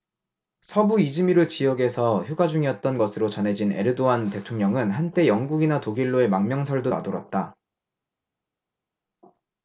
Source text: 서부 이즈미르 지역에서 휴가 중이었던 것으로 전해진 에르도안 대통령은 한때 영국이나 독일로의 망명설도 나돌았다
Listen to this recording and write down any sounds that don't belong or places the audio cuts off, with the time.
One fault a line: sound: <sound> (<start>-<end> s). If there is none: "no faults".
no faults